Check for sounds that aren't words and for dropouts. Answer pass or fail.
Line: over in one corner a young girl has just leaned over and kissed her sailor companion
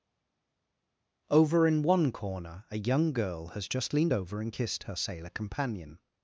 pass